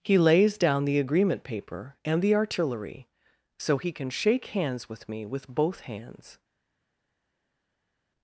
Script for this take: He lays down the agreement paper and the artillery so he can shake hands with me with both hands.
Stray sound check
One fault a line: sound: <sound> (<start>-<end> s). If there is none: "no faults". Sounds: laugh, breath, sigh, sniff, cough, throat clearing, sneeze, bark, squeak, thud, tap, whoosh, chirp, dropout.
no faults